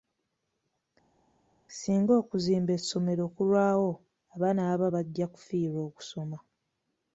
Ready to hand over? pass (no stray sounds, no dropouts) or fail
pass